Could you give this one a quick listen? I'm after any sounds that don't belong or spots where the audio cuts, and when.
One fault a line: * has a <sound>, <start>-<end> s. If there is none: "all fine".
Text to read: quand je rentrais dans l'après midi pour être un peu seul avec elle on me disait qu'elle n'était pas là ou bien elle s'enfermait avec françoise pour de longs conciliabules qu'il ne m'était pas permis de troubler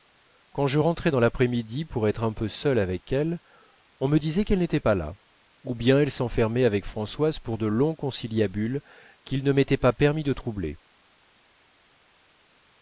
all fine